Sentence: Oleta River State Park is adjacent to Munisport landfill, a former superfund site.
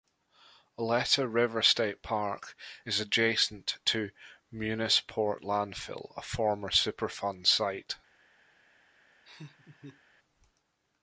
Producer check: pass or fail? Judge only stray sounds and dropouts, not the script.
fail